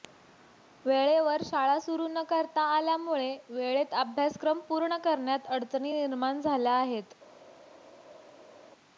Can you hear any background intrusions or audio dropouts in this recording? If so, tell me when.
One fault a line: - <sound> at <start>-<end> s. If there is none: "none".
none